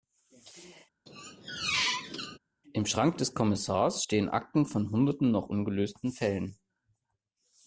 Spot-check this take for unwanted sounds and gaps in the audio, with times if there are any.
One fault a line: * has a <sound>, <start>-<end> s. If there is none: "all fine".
* has a squeak, 1.1-2.4 s